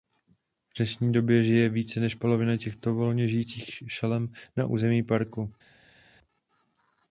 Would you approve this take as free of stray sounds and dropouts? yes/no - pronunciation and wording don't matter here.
yes